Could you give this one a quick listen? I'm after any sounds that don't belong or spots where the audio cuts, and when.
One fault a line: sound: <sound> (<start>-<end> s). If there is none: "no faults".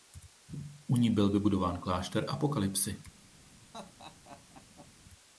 sound: laugh (3.7-4.9 s)